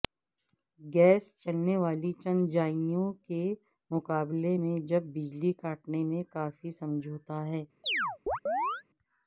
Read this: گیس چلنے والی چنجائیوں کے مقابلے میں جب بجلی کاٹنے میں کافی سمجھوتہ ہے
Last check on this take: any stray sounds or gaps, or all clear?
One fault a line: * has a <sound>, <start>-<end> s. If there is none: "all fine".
* has a chirp, 7.8-8.8 s